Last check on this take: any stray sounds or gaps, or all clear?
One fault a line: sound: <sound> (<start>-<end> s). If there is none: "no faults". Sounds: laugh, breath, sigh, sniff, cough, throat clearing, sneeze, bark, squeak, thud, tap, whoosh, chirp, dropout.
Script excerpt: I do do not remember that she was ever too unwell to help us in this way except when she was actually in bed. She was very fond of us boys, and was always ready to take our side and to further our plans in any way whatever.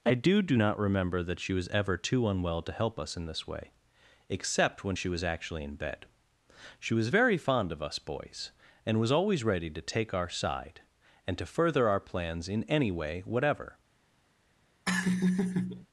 sound: laugh (14.9-15.9 s)